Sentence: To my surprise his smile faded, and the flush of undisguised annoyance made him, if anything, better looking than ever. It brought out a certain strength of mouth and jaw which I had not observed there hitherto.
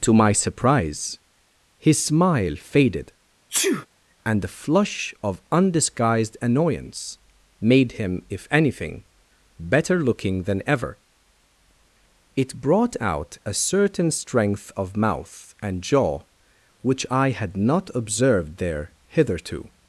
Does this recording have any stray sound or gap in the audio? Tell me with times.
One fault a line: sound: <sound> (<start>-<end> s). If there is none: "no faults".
sound: sneeze (3.5-3.9 s)